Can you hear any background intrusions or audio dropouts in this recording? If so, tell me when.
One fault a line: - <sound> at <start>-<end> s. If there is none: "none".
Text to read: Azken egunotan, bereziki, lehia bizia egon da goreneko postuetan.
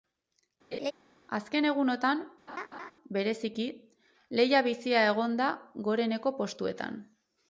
- laugh at 0.7-0.9 s
- laugh at 2.5-2.9 s